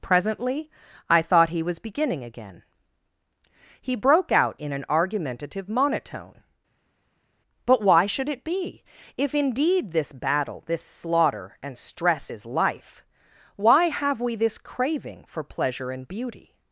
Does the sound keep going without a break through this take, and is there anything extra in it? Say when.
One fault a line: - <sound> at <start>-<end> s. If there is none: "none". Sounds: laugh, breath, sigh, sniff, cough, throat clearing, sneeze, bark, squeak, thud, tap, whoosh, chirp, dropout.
none